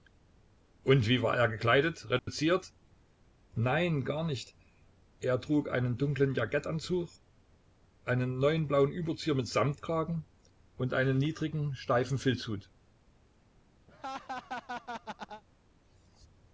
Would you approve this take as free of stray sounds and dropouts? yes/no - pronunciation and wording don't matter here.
no